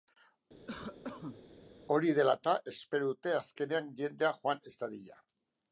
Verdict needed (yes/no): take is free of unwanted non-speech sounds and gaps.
no